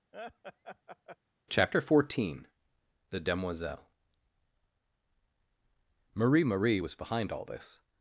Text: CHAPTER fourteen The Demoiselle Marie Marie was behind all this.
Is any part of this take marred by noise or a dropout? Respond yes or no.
yes